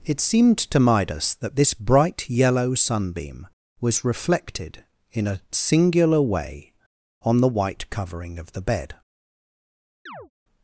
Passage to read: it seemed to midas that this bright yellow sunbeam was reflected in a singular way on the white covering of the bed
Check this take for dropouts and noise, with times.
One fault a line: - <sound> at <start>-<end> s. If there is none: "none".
- chirp at 10.1-10.3 s